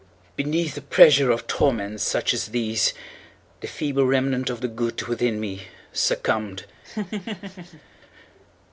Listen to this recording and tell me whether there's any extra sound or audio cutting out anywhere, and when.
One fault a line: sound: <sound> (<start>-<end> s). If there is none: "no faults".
sound: laugh (6.8-7.8 s)